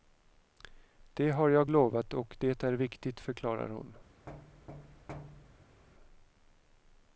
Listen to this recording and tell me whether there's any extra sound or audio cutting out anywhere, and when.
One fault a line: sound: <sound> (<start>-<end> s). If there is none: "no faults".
sound: thud (4.3-5.8 s)